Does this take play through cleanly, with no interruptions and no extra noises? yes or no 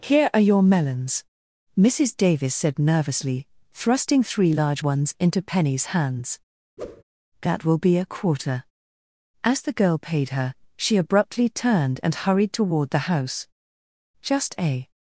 no